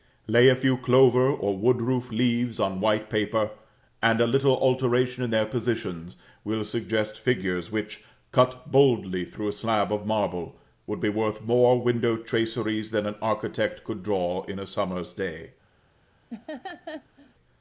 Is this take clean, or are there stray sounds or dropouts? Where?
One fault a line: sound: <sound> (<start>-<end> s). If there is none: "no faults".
sound: laugh (16.3-17.3 s)